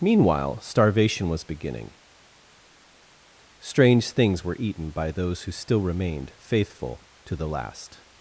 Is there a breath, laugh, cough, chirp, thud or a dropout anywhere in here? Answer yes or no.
no